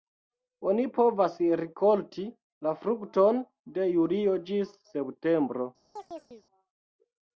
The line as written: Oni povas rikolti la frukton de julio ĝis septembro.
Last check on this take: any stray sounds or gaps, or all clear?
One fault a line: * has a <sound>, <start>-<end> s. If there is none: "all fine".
* has a chirp, 6.0-6.4 s